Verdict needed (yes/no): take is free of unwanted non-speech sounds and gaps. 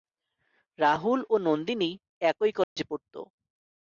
no